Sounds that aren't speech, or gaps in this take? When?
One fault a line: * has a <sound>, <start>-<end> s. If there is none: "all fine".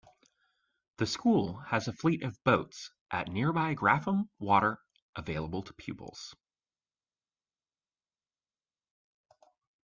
all fine